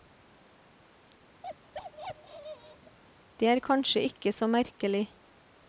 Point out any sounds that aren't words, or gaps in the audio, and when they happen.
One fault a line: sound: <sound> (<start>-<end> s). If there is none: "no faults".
sound: bark (1.4-3.0 s)